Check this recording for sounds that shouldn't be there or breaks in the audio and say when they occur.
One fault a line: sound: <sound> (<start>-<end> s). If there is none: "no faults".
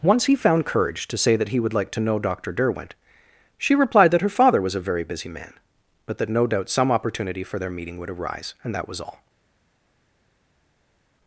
no faults